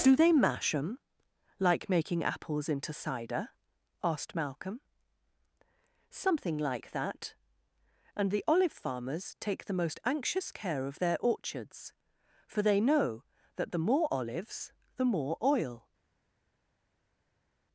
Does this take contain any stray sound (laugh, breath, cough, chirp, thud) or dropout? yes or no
no